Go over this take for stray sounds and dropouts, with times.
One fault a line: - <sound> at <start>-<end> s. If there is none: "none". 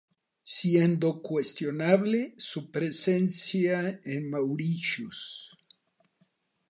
none